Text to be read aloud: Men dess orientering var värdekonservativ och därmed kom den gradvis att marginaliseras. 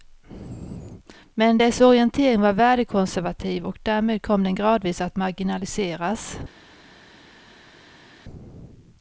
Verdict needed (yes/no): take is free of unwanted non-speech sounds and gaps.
yes